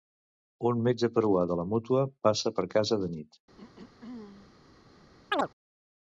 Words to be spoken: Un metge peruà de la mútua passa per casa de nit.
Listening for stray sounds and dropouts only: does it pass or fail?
fail